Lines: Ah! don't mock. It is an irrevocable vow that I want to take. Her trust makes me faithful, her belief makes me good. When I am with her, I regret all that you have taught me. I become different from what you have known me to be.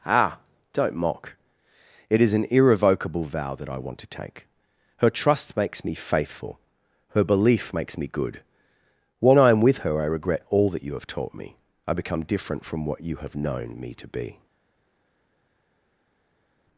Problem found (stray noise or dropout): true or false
false